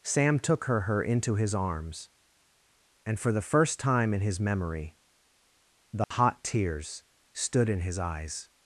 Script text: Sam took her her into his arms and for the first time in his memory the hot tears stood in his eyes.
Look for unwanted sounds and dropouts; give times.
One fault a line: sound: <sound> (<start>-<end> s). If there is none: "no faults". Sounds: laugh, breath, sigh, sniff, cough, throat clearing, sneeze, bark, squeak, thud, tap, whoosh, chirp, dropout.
sound: dropout (6.0-6.1 s)